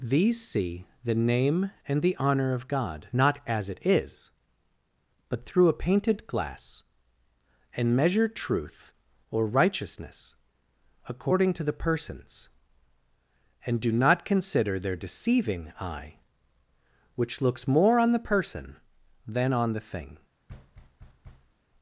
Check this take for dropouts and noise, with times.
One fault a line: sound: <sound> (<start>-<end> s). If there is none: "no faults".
sound: thud (20.5-21.5 s)